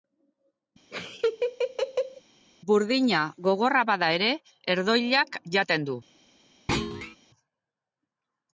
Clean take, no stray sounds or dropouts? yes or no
no